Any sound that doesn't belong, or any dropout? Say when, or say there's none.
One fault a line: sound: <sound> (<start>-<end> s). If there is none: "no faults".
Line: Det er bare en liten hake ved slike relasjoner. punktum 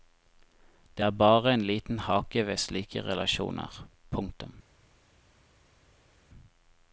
no faults